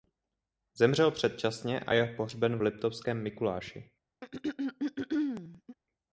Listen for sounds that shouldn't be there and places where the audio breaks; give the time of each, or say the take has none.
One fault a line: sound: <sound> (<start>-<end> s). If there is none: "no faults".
sound: throat clearing (4.2-5.8 s)